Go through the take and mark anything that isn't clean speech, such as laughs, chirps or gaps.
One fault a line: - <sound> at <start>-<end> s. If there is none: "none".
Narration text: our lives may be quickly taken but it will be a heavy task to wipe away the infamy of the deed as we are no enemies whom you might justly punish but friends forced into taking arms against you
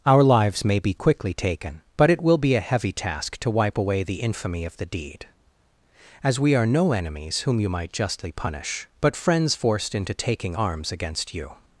none